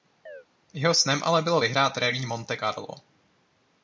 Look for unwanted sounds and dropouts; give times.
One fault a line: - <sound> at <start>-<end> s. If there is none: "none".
- chirp at 0.3-0.4 s